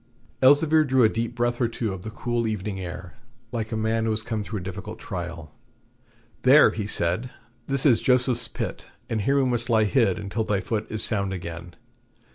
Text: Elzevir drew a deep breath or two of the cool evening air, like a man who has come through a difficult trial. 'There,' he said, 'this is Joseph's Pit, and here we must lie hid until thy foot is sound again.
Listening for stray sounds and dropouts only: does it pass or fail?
pass